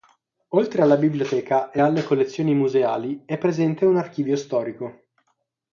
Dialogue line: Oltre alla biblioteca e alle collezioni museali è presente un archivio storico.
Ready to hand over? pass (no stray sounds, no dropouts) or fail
pass